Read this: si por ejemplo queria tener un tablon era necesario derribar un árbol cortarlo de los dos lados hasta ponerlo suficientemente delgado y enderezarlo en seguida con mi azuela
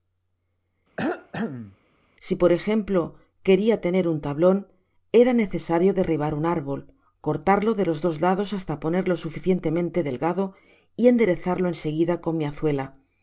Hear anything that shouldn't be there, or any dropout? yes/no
yes